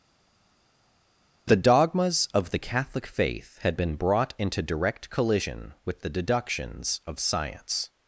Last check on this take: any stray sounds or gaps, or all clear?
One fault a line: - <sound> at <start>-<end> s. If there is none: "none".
none